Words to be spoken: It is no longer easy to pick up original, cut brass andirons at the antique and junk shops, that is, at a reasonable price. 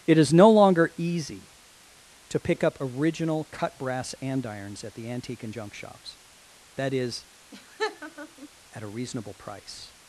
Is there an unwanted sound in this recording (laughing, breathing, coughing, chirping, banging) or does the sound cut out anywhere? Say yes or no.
yes